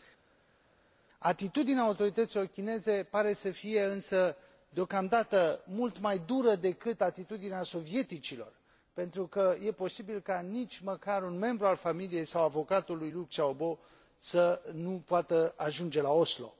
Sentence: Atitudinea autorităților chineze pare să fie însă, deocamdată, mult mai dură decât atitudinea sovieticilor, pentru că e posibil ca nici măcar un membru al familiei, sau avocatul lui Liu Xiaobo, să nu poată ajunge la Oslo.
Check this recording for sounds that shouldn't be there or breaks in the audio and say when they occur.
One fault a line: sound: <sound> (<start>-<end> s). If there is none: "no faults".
no faults